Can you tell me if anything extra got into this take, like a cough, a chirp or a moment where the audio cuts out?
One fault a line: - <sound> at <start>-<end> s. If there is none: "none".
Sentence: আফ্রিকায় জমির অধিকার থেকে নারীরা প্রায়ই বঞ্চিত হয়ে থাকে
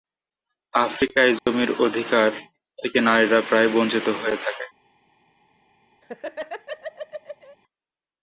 - dropout at 1.4-1.5 s
- laugh at 6.0-7.6 s